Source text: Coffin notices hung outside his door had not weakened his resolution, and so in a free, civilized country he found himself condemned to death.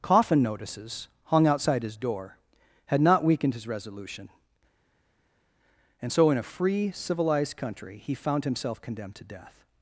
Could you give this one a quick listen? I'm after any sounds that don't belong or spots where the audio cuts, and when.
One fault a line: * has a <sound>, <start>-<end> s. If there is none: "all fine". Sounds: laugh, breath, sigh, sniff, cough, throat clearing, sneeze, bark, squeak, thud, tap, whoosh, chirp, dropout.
all fine